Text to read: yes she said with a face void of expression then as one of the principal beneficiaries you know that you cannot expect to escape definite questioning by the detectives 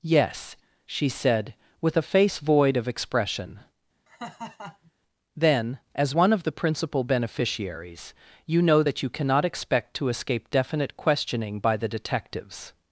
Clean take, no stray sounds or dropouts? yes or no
no